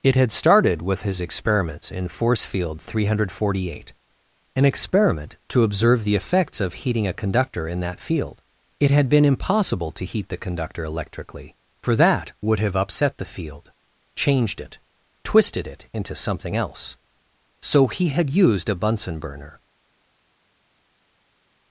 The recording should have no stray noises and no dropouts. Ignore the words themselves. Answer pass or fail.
pass